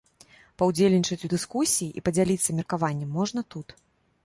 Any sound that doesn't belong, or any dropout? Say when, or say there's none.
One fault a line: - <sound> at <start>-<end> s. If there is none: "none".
none